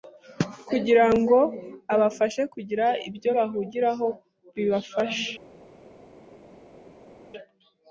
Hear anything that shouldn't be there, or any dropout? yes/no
no